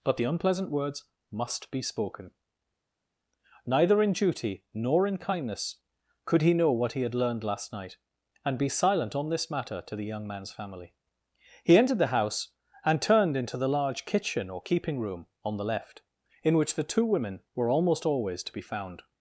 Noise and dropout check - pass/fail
pass